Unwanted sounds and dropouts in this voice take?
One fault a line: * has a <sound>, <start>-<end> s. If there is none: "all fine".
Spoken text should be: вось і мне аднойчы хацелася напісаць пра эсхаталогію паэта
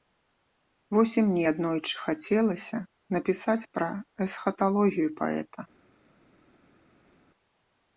all fine